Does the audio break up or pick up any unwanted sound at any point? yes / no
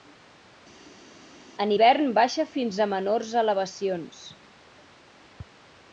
no